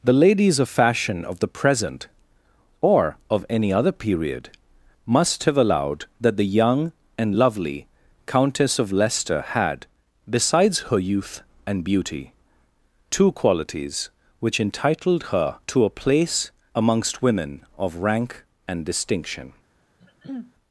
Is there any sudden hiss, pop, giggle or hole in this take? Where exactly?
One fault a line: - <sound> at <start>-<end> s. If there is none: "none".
- throat clearing at 20.0-20.5 s